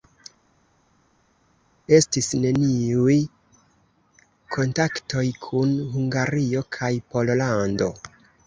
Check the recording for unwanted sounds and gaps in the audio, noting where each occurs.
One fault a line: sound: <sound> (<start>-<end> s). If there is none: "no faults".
no faults